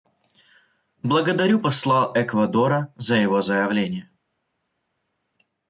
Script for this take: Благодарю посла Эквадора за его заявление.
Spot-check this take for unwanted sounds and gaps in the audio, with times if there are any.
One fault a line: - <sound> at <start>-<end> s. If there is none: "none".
none